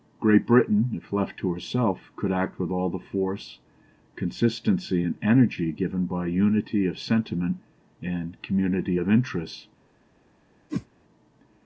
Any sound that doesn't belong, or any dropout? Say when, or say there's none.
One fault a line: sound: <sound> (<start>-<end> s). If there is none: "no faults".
sound: whoosh (10.7-10.9 s)